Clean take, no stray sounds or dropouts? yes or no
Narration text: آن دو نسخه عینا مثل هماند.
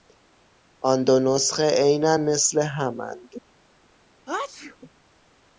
no